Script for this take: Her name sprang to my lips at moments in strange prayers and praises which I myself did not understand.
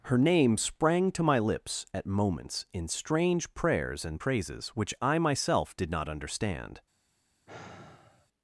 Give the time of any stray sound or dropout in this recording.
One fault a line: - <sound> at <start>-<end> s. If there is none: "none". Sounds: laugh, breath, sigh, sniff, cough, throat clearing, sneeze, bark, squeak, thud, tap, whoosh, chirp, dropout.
- sigh at 7.5-8.3 s